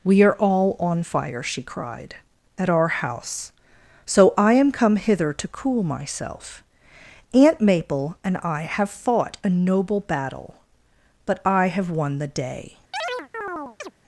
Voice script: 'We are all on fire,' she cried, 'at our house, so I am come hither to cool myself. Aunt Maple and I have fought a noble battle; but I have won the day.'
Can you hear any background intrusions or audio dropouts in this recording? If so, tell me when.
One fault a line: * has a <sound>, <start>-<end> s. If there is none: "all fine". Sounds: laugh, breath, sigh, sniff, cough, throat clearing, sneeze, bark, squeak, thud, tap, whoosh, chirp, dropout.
* has a chirp, 12.9-13.9 s